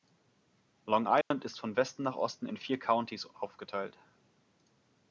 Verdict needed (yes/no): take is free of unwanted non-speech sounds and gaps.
no